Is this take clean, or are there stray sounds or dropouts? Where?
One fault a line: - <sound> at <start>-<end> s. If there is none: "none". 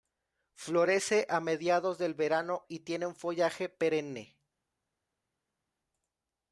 none